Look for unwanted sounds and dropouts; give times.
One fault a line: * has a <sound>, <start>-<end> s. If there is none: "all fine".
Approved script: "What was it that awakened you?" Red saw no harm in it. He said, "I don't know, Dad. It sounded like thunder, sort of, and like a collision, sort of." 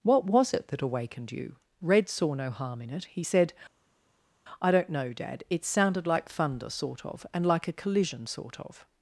all fine